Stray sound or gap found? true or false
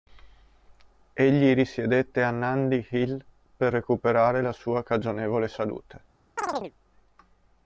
true